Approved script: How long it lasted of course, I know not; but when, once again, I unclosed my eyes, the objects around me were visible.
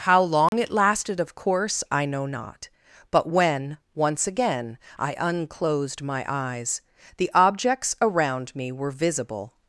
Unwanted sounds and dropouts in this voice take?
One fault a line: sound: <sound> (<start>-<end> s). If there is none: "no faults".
sound: dropout (0.5-0.5 s)